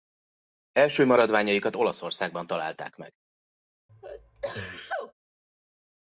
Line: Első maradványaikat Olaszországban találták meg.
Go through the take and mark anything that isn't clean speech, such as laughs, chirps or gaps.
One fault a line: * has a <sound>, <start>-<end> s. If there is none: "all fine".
* has a sneeze, 3.9-5.1 s